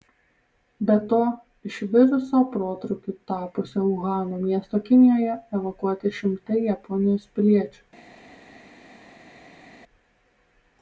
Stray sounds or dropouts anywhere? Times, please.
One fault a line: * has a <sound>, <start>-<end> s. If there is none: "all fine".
all fine